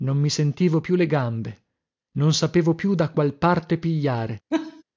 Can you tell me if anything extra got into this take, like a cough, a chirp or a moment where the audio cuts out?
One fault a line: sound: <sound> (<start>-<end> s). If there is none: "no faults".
sound: laugh (4.5-4.8 s)